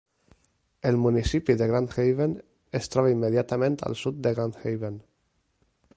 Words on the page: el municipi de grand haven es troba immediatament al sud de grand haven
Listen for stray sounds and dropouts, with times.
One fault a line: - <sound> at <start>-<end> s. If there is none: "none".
none